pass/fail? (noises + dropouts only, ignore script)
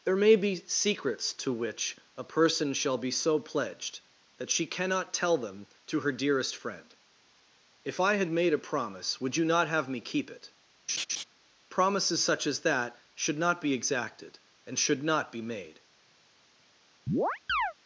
fail